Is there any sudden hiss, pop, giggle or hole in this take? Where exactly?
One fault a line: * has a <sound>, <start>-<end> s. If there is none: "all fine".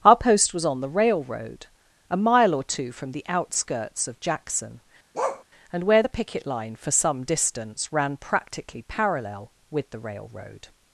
* has a bark, 5.1-5.4 s